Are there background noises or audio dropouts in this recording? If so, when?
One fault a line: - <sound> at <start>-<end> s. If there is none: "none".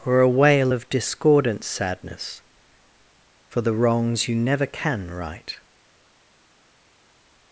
none